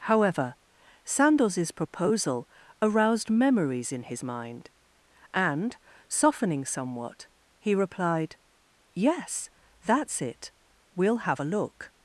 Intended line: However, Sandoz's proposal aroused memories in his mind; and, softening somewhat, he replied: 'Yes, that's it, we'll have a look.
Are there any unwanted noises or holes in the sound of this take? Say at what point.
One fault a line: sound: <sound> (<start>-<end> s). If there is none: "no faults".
no faults